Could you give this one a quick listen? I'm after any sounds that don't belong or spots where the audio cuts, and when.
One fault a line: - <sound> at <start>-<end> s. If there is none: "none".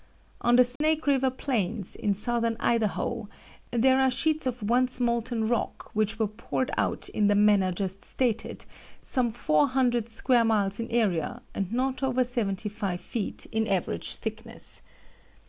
- dropout at 0.8-0.8 s